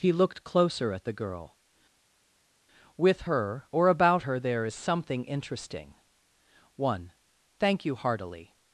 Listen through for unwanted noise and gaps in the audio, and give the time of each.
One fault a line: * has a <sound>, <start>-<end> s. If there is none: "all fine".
all fine